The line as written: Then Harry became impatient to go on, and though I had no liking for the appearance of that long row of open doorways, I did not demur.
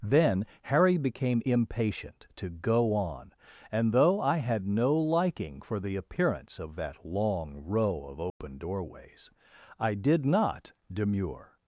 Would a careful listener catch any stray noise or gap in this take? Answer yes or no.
yes